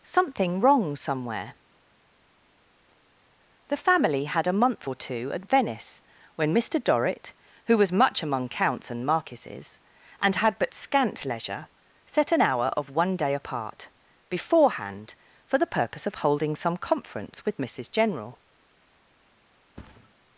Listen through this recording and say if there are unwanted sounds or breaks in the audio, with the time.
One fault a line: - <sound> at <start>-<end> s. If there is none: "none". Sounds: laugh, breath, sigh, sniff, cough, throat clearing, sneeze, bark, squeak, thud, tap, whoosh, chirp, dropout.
- thud at 19.8-20.1 s